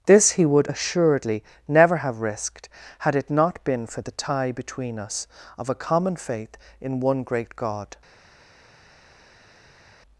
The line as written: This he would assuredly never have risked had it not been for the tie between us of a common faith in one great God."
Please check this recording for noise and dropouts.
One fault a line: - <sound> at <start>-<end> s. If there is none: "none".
none